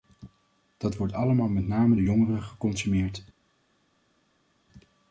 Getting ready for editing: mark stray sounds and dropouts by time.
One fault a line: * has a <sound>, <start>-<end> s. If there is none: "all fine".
all fine